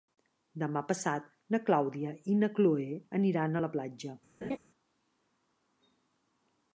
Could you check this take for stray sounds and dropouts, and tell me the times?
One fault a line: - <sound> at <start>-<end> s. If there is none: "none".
- laugh at 4.4-4.6 s